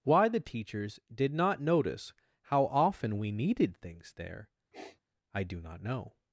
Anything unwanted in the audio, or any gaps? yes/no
yes